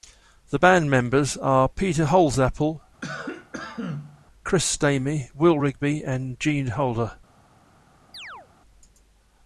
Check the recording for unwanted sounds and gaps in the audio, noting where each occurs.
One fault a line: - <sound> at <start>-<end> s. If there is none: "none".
- cough at 3.0-4.3 s
- chirp at 8.1-8.5 s